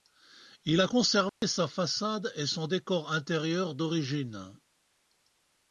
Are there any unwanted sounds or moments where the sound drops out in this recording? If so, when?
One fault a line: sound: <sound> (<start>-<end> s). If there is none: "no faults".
sound: dropout (1.3-1.4 s)